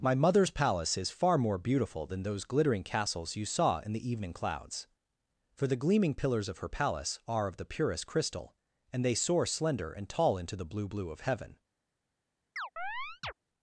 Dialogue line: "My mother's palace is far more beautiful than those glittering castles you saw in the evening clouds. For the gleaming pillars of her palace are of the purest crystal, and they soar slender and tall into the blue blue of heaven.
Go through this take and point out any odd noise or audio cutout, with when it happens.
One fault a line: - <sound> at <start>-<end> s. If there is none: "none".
- chirp at 12.6-13.3 s